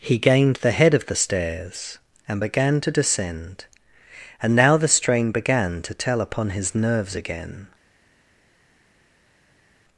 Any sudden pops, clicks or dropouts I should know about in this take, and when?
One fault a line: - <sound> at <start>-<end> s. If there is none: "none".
none